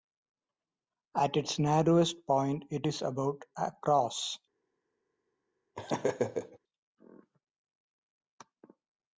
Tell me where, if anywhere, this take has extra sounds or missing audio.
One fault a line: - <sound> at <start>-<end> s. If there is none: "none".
- laugh at 5.7-6.6 s